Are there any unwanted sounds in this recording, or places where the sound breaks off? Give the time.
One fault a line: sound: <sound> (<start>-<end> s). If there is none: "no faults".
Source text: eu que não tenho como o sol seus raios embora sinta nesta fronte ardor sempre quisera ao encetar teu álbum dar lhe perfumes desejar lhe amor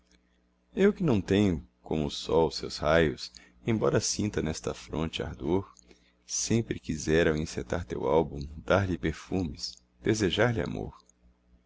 no faults